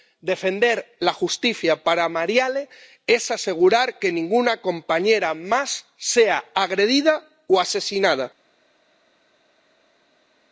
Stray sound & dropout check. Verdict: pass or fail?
pass